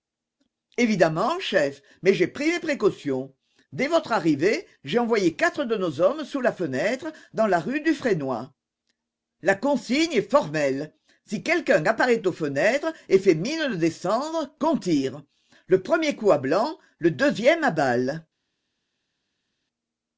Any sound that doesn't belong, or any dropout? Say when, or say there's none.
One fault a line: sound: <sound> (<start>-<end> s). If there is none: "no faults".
no faults